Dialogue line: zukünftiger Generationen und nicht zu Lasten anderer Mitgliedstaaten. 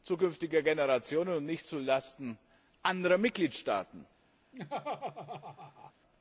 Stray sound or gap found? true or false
true